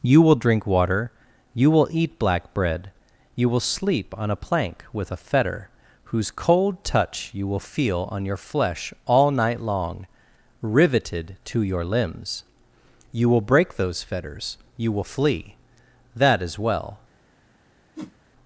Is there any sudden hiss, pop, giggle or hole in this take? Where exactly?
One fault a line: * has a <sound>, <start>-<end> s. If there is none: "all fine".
* has a whoosh, 18.0-18.2 s